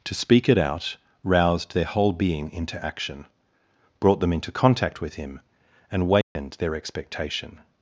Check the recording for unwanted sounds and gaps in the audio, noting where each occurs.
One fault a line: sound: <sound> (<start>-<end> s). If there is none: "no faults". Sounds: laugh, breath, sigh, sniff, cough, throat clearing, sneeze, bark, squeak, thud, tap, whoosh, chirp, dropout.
sound: dropout (6.2-6.4 s)